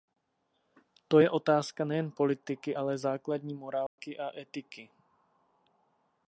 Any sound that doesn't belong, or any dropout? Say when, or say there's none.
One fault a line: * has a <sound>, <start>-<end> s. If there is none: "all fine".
* has a dropout, 3.9-4.0 s